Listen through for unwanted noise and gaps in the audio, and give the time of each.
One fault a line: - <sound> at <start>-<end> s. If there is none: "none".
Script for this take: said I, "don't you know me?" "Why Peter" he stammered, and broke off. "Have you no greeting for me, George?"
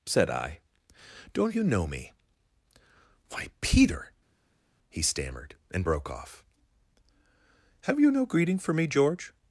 none